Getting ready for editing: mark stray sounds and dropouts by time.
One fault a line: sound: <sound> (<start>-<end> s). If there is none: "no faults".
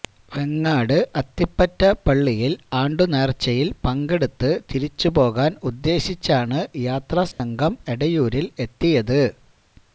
sound: dropout (7.3-7.4 s)